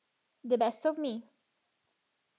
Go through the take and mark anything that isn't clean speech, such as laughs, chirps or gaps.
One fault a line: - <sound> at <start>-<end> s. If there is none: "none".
none